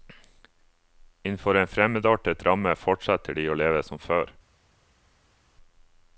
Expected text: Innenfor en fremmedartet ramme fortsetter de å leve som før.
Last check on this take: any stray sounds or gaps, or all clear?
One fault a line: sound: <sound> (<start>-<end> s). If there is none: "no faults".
no faults